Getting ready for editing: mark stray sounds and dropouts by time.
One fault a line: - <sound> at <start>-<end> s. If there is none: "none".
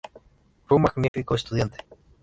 - dropout at 1.1-1.1 s